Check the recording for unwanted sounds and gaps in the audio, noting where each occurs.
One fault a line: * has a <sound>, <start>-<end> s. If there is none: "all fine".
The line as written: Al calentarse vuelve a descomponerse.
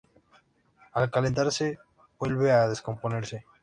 all fine